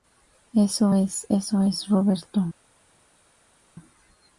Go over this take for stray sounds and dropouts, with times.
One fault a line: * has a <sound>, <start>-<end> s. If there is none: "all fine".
all fine